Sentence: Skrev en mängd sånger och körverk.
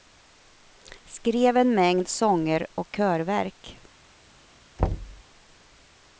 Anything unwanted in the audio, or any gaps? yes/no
yes